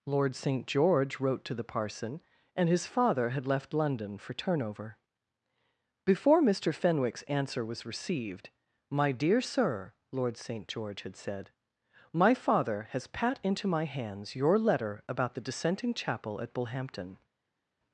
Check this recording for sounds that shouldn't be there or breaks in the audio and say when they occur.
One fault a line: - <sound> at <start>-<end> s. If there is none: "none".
none